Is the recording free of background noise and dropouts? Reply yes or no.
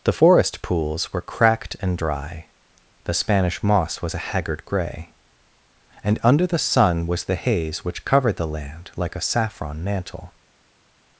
yes